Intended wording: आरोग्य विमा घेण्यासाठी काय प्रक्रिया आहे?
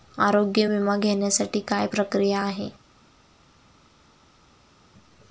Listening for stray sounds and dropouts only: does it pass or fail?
pass